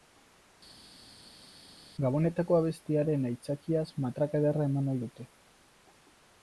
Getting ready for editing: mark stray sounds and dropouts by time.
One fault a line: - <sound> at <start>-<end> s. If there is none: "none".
none